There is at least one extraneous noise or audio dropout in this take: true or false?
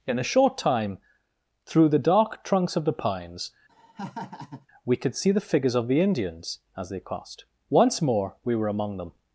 true